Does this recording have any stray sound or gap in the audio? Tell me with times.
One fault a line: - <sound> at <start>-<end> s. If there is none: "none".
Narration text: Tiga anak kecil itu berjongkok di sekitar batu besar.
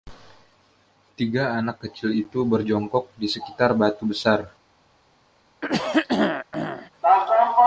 - throat clearing at 5.6-6.9 s